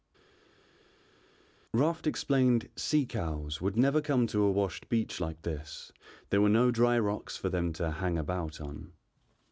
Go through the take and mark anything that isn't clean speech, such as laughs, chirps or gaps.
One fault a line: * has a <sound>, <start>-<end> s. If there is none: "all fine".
all fine